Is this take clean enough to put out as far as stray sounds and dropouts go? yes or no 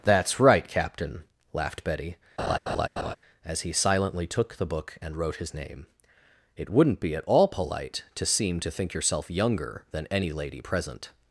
no